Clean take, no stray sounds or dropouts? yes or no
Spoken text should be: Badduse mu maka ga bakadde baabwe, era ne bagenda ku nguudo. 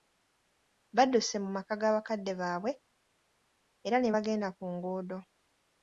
yes